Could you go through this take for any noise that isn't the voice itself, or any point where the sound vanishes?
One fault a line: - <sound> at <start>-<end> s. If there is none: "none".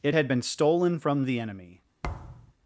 - thud at 2.0-2.5 s